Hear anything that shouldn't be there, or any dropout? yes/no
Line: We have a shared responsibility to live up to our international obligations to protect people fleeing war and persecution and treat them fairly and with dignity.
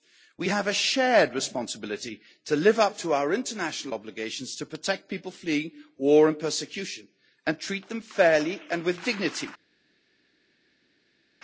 no